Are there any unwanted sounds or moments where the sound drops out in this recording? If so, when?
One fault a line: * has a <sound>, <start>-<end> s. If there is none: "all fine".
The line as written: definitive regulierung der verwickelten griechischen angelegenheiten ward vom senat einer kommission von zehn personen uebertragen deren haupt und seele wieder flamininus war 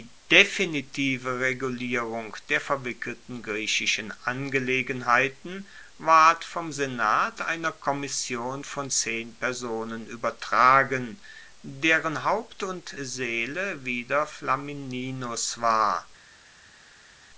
all fine